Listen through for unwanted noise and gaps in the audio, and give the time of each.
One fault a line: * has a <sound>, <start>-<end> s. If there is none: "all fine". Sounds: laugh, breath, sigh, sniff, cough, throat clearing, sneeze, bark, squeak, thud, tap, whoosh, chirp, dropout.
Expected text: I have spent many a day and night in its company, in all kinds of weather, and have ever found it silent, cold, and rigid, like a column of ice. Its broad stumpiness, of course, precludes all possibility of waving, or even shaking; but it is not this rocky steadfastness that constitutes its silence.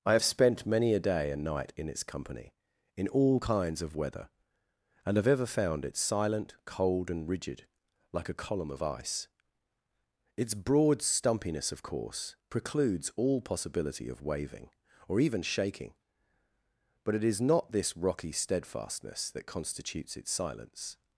all fine